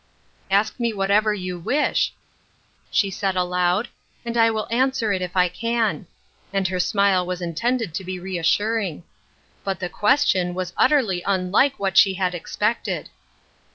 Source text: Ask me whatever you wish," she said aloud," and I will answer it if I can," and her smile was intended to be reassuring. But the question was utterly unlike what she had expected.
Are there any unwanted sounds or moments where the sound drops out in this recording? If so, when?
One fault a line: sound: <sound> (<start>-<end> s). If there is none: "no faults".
no faults